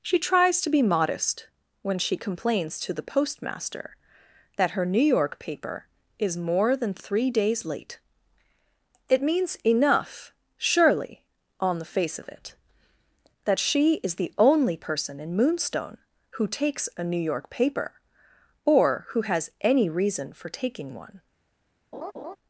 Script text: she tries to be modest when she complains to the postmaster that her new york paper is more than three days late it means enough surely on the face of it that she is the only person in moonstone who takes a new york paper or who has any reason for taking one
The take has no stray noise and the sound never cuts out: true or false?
false